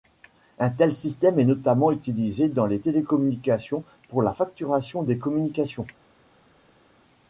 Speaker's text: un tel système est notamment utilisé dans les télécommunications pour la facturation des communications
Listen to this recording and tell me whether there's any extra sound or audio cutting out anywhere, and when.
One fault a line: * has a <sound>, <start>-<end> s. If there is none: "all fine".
all fine